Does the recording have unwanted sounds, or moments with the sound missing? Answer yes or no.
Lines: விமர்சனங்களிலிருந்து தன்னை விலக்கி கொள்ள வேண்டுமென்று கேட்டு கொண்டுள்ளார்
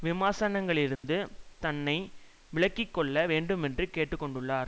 yes